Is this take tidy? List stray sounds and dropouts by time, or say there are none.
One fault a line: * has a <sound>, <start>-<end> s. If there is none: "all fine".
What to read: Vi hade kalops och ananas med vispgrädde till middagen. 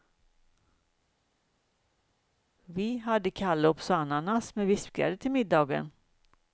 all fine